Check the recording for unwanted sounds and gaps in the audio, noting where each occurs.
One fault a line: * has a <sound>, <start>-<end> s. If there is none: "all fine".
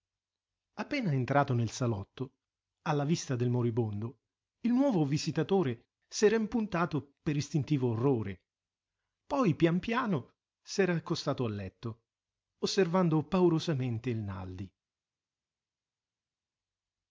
all fine